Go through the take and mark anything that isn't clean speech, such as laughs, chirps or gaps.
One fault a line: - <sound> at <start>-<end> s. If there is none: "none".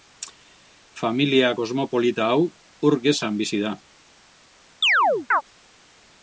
- chirp at 4.8-5.4 s